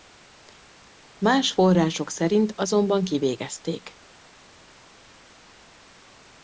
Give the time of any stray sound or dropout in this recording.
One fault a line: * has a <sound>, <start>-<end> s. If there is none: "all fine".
all fine